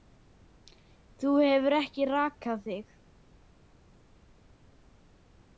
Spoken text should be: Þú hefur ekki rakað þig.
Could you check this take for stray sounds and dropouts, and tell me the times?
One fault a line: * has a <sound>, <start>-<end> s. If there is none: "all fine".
all fine